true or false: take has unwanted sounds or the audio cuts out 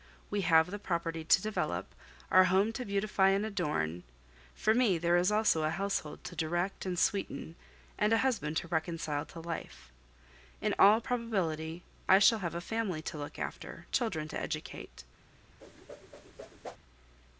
true